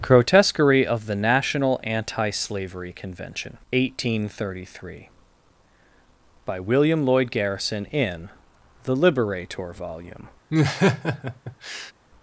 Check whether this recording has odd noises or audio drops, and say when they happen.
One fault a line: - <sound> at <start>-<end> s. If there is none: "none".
- laugh at 10.5-11.9 s